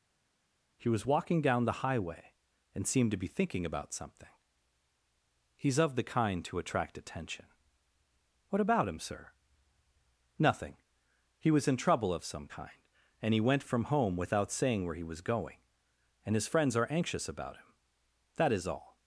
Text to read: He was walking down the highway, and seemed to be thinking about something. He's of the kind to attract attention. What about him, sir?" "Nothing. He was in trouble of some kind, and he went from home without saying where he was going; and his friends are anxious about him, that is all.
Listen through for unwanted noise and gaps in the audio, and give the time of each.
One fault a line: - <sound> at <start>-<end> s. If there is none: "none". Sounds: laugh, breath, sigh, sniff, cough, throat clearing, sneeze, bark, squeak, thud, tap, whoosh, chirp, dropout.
none